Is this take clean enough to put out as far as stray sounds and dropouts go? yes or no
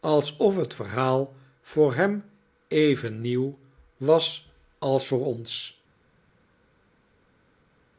yes